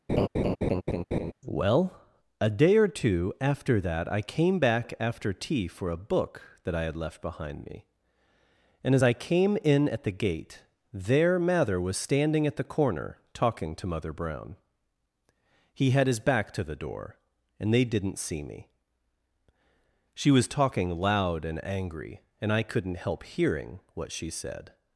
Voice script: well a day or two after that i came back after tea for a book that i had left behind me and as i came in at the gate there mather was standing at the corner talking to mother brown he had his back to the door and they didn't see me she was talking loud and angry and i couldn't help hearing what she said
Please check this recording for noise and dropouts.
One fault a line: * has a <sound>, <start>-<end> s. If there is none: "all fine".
* has a laugh, 0.1-1.3 s